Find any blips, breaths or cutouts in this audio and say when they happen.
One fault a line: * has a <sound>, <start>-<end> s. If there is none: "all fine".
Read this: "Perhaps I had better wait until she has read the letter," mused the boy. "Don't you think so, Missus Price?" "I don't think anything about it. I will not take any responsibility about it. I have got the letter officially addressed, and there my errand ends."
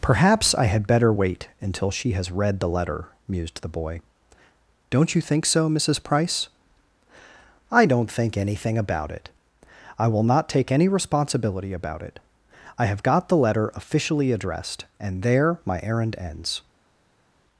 all fine